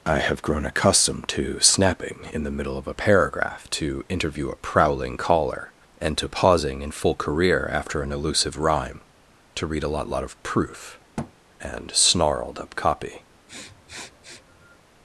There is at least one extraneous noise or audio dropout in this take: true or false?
true